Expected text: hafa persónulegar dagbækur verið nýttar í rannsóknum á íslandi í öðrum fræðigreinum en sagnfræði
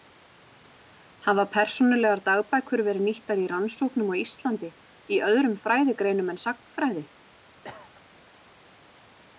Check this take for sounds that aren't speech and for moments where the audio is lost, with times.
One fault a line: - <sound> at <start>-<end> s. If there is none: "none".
- cough at 7.6-8.0 s